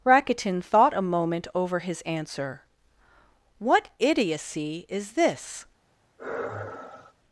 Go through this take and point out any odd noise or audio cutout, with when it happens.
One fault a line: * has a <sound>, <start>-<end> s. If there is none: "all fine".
* has a sigh, 6.2-7.1 s